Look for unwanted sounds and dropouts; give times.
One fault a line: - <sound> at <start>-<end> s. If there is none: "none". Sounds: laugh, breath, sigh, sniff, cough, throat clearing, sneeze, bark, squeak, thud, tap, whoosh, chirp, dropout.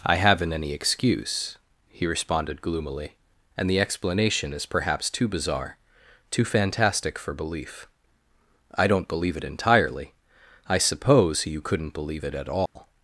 - dropout at 12.7-12.8 s